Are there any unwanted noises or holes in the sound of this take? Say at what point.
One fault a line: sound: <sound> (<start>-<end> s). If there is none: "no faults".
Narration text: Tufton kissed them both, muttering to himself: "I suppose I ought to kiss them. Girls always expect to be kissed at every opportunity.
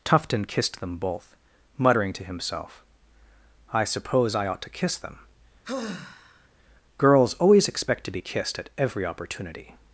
sound: sigh (5.6-6.5 s)